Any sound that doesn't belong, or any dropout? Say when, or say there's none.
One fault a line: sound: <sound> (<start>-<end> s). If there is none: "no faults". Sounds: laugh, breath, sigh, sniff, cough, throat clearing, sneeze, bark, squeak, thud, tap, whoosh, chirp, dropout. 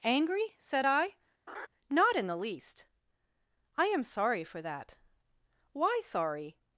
sound: laugh (1.5-1.7 s)